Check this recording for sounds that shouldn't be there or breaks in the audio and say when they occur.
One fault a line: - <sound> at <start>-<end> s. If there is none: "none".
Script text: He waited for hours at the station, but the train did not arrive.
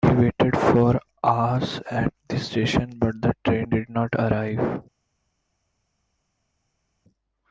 none